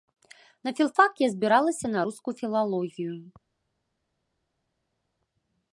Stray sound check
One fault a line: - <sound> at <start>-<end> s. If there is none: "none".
none